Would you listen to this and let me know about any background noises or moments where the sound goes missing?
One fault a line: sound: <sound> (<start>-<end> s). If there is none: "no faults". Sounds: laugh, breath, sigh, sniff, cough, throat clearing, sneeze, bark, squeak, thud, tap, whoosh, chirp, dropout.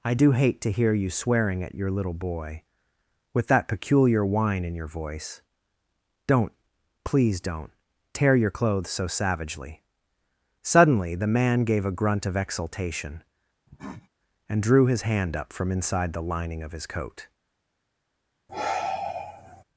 sound: cough (13.7-14.1 s)
sound: sigh (18.5-19.6 s)